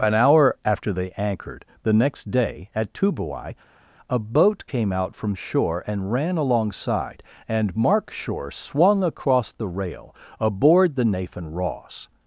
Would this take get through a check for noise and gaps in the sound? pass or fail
pass